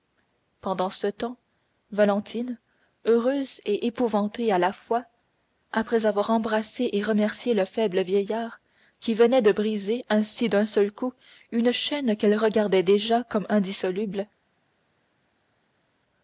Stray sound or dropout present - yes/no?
no